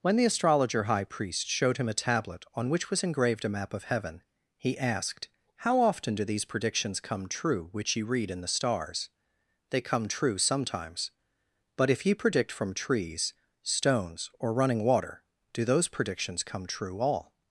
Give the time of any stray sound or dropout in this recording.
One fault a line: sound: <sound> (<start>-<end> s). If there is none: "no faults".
no faults